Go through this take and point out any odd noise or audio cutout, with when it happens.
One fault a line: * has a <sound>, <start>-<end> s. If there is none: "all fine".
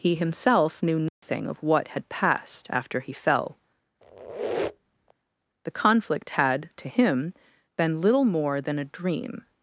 * has a dropout, 1.1-1.2 s
* has a squeak, 4.0-5.1 s